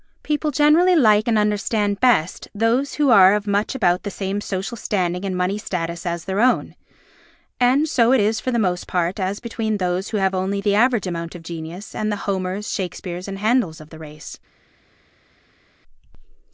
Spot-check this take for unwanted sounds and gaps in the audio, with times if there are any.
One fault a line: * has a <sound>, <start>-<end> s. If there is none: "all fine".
all fine